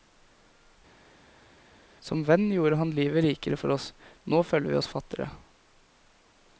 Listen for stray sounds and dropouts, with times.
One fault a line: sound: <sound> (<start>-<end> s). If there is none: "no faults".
no faults